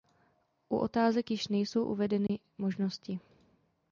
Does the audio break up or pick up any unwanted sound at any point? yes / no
yes